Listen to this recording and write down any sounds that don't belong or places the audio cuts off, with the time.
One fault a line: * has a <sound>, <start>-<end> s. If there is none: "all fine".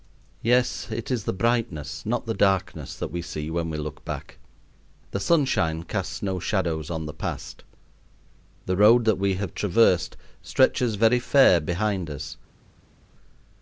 all fine